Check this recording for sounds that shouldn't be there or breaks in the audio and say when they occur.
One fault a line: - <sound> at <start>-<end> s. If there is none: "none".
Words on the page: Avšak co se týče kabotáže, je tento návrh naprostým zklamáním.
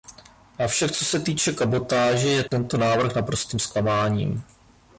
- dropout at 2.5-2.5 s